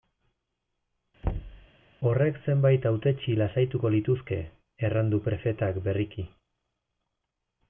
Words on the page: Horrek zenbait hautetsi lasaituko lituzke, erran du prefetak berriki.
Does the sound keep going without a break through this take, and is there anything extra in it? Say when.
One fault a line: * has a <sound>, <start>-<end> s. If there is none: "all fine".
* has a thud, 1.2-1.7 s